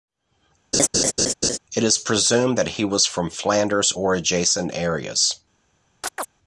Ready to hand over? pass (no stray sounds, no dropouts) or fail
fail